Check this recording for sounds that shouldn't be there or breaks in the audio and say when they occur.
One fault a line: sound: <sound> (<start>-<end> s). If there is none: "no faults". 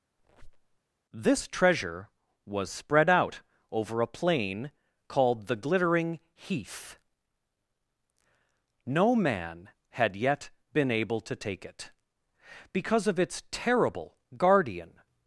sound: squeak (0.2-0.8 s)